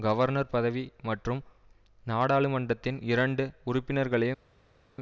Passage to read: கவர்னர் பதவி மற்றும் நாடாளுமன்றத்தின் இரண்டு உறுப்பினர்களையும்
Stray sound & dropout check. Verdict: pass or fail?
pass